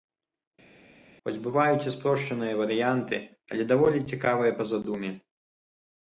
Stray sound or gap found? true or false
false